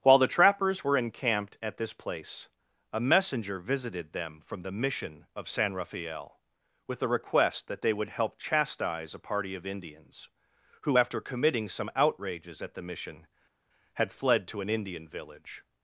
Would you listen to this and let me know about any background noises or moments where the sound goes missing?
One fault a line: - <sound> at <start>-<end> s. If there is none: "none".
none